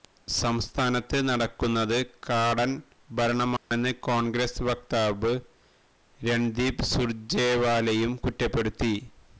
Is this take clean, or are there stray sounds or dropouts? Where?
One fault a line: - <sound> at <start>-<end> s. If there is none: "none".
- dropout at 3.6-3.7 s